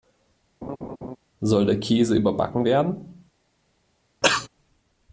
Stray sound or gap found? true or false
true